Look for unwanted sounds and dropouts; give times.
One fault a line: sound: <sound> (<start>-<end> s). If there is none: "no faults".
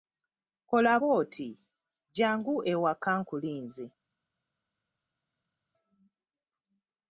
no faults